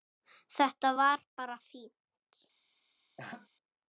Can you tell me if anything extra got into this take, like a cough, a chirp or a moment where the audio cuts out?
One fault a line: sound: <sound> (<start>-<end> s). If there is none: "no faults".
sound: laugh (3.2-3.5 s)